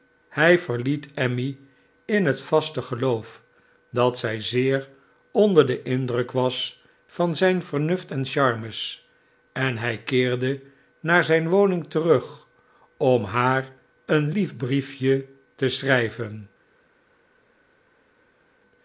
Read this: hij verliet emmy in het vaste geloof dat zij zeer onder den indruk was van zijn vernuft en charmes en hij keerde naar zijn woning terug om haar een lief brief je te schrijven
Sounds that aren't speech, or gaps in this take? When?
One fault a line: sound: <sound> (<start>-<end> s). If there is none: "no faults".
no faults